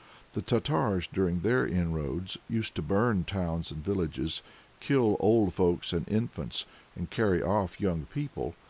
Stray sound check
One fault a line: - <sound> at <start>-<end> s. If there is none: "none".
none